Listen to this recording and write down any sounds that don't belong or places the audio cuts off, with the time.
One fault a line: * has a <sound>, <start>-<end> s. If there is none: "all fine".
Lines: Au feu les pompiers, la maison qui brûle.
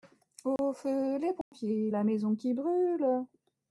* has a dropout, 0.6-0.6 s
* has a dropout, 1.4-1.5 s